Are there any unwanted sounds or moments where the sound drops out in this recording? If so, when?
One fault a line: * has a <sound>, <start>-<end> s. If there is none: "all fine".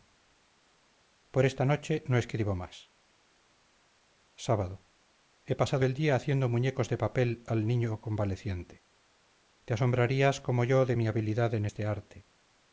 all fine